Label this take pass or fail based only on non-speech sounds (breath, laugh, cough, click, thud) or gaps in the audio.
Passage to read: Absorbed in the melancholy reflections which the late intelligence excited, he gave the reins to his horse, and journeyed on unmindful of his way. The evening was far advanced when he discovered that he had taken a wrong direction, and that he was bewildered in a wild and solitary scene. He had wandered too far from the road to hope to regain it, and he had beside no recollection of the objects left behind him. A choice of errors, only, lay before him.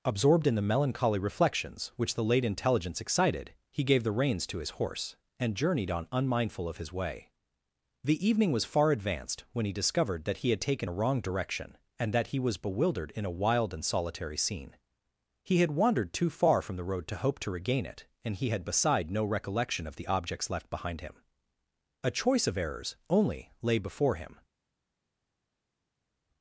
pass